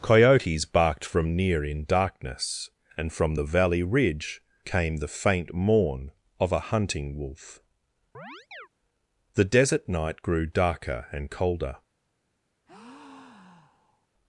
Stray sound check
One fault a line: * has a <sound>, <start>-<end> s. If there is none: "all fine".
* has a chirp, 8.1-8.7 s
* has a breath, 12.7-14.1 s